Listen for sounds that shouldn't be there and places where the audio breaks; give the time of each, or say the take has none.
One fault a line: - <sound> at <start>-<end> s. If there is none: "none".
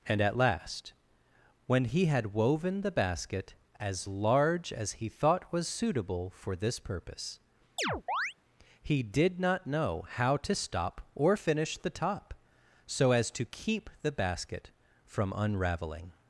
- chirp at 7.8-8.3 s